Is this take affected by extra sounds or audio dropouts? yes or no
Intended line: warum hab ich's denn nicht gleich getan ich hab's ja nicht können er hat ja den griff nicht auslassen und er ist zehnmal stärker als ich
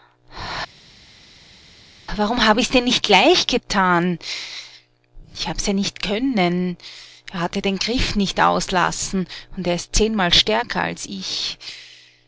no